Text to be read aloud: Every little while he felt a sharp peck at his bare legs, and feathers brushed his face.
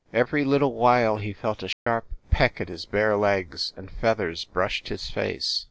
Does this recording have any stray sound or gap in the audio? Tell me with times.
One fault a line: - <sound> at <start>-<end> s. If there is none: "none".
- dropout at 1.7-1.9 s